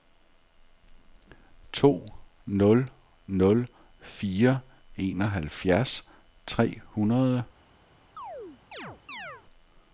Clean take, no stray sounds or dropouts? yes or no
no